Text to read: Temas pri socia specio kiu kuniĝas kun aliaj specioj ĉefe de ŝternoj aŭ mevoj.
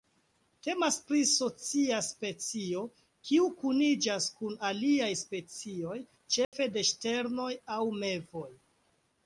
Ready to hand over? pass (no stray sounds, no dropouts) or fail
fail